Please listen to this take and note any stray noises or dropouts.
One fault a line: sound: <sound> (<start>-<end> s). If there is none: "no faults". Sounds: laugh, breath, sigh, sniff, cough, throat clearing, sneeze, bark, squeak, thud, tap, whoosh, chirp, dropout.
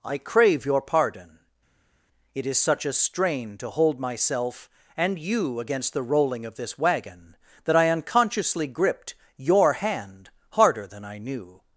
no faults